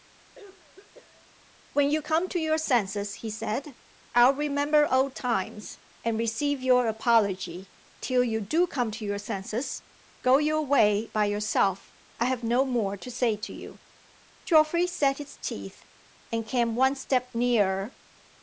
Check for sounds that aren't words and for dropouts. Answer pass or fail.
fail